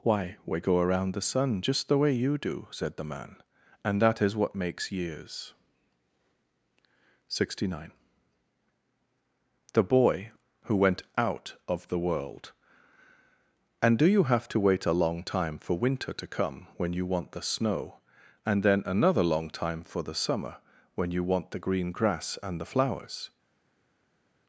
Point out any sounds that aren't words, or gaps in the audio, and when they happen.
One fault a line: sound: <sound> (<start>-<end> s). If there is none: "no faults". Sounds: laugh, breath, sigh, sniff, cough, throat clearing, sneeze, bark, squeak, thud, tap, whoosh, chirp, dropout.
no faults